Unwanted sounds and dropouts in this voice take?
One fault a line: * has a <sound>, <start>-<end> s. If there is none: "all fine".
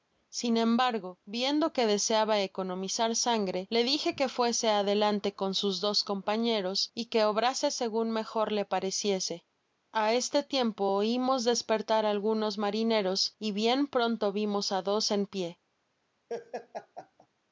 * has a laugh, 16.3-17.3 s